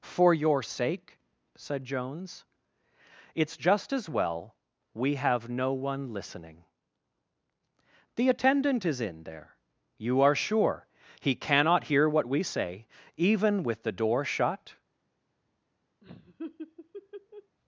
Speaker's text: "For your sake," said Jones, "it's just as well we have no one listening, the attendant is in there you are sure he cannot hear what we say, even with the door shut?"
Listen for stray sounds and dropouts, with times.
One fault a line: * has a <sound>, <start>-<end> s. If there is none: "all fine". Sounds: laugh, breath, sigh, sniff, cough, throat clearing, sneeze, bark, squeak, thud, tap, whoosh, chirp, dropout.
* has a laugh, 16.0-17.6 s